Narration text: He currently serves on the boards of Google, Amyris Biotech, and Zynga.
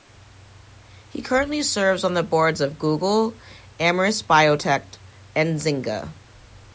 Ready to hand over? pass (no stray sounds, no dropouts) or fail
pass